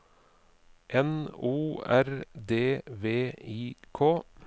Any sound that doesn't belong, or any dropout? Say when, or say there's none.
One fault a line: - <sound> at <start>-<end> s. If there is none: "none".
none